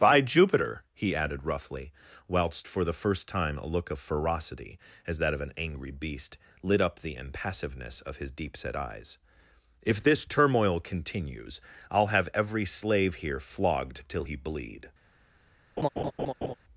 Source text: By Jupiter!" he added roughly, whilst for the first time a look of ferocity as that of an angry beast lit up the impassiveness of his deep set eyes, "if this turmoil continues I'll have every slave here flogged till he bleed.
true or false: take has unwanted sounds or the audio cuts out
true